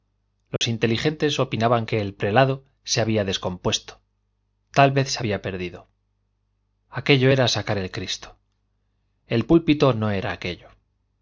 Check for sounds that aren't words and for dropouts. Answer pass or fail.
fail